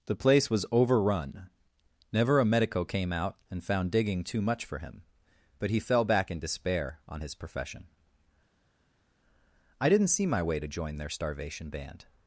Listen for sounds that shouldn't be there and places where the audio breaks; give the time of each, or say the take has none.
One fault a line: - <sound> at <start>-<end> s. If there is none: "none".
none